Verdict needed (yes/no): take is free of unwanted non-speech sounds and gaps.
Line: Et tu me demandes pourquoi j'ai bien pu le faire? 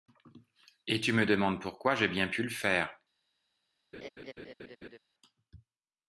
no